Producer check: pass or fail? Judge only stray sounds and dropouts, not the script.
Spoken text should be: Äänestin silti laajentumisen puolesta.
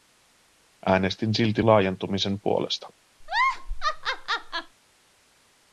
fail